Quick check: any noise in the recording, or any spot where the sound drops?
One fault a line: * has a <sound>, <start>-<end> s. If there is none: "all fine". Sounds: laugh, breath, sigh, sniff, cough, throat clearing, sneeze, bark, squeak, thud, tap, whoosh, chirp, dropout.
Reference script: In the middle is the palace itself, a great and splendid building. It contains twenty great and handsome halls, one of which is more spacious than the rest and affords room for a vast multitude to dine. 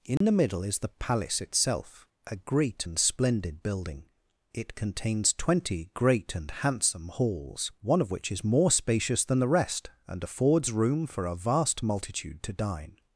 * has a dropout, 0.2-0.2 s